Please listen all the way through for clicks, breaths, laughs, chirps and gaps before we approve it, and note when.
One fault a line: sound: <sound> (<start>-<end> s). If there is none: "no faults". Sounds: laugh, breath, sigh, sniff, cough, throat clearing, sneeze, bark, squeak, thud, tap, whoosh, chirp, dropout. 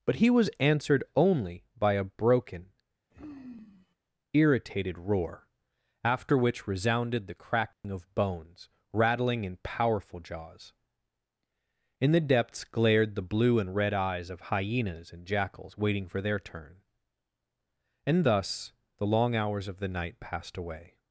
sound: sigh (3.1-4.0 s)
sound: dropout (7.7-7.8 s)